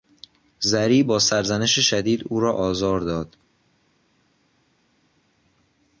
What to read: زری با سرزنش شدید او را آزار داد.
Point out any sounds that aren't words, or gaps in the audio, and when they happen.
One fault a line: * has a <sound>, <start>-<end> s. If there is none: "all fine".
all fine